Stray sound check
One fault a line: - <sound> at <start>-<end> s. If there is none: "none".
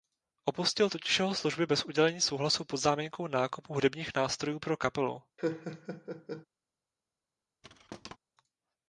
- laugh at 5.4-6.5 s
- thud at 7.6-8.2 s